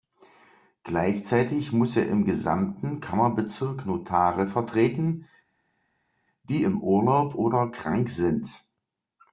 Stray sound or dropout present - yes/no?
no